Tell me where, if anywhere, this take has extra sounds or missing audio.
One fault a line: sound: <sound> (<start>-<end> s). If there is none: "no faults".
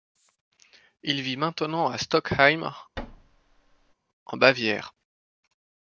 sound: thud (3.0-3.9 s)